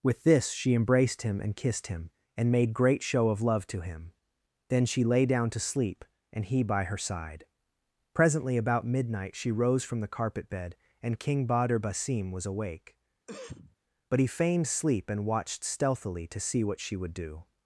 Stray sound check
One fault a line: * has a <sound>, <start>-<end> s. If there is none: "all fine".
* has a cough, 13.3-13.8 s